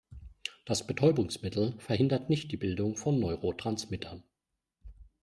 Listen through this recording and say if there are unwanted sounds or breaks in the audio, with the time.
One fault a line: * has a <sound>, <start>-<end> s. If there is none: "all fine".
all fine